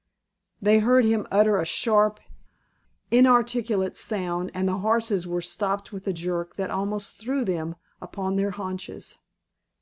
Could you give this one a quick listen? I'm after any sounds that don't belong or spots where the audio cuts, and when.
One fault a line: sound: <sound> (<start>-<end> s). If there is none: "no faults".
no faults